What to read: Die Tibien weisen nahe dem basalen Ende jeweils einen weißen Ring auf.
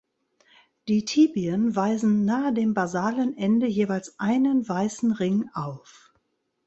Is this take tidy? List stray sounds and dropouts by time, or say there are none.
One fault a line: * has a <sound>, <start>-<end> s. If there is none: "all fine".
all fine